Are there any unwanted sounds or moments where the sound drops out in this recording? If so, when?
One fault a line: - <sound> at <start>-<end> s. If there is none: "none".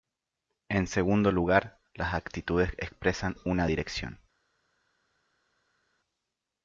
none